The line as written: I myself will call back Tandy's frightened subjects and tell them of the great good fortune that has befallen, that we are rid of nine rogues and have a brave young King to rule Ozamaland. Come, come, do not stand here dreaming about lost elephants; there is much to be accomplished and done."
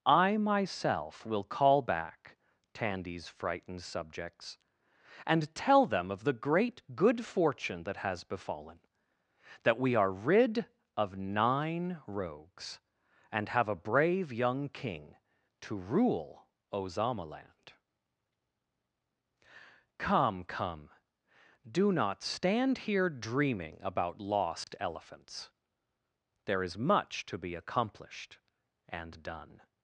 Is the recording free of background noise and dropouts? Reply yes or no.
no